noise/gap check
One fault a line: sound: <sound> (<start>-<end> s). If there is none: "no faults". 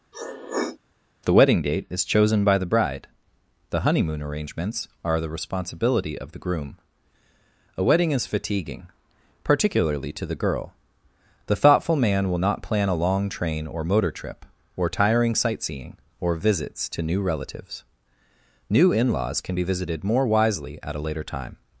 sound: sniff (0.1-0.8 s)